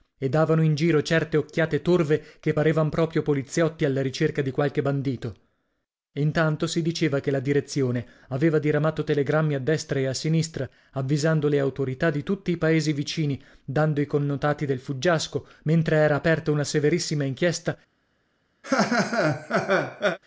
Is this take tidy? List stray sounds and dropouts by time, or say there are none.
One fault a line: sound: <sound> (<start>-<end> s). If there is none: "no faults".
sound: laugh (18.6-20.2 s)